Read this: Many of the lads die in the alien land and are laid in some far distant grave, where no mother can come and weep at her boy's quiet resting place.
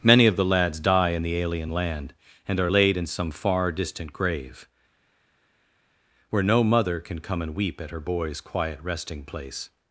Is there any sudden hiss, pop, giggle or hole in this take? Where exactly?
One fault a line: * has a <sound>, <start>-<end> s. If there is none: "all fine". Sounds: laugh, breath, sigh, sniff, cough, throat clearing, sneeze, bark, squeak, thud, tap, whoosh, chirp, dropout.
all fine